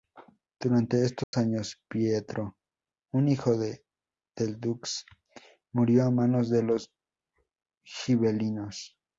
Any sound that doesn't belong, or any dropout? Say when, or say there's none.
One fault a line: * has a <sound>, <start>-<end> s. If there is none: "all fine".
* has a dropout, 1.2-1.3 s